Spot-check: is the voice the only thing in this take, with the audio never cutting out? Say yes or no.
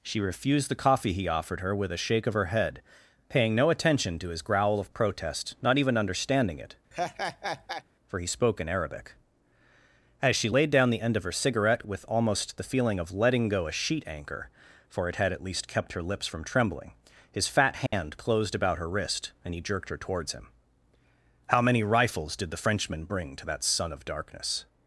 no